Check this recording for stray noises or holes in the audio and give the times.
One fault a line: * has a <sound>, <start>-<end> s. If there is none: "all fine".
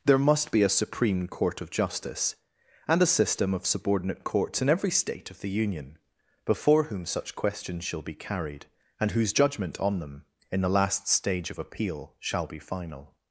all fine